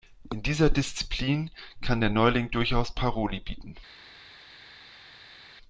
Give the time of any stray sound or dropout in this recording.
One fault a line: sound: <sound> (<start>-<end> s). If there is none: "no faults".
no faults